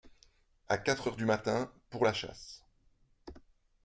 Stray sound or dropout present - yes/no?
no